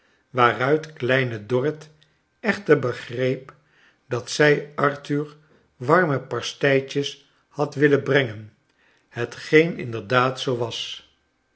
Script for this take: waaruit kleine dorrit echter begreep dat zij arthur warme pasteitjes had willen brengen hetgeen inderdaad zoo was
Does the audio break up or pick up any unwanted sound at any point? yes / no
no